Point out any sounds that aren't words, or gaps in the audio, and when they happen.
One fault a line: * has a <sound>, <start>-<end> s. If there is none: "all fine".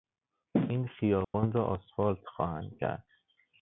* has a dropout, 1.2-1.3 s